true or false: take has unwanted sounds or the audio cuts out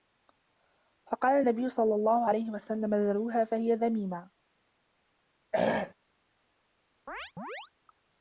true